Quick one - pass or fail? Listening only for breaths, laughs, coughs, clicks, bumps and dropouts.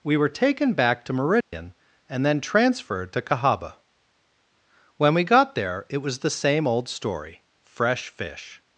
fail